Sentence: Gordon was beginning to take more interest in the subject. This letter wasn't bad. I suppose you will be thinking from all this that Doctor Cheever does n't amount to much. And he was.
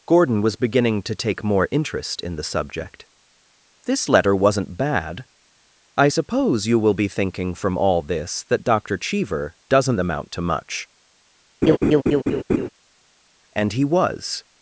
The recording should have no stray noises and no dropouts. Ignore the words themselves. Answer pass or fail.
fail